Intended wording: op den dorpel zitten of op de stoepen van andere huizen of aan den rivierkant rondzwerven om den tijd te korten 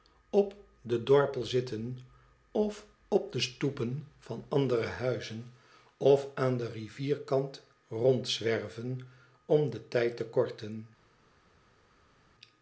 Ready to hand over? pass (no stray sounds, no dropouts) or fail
pass